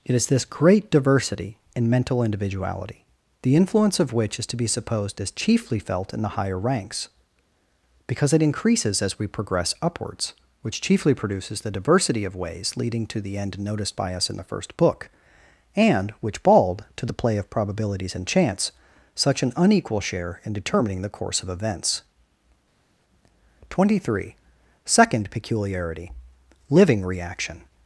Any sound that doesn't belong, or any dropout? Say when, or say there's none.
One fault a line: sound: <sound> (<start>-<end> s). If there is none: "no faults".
no faults